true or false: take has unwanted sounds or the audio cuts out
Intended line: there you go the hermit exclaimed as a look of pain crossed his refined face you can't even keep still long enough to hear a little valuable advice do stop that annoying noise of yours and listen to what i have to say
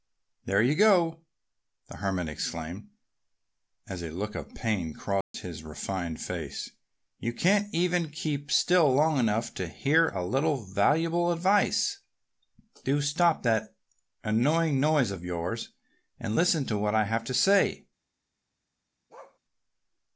true